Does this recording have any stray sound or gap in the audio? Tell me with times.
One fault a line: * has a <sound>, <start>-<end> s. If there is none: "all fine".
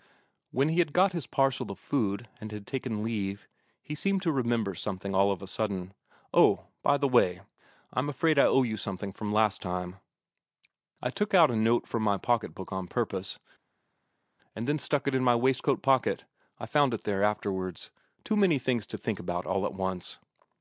all fine